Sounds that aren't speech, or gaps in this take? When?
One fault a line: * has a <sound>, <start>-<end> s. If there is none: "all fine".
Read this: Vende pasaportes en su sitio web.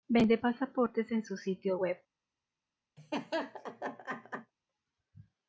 * has a laugh, 3.0-4.5 s